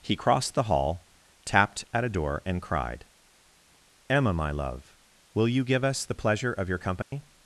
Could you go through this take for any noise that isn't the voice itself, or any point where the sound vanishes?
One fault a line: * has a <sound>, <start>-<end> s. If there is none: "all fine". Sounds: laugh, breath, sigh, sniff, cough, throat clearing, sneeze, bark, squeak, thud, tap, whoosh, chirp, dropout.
* has a dropout, 7.0-7.1 s